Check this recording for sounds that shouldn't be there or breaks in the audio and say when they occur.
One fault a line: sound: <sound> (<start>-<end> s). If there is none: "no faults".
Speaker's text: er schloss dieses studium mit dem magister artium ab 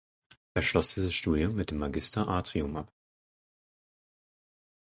no faults